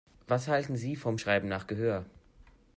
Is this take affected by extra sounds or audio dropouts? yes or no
no